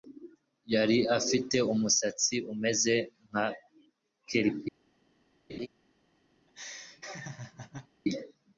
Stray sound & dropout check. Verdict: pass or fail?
fail